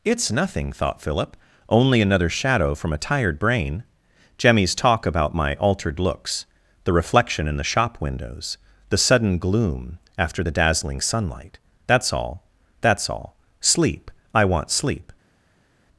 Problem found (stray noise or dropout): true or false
false